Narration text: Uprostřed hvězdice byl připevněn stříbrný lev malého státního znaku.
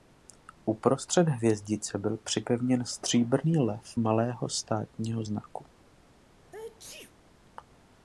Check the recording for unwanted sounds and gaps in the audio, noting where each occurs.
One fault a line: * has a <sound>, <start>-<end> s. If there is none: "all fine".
* has a sneeze, 6.4-7.2 s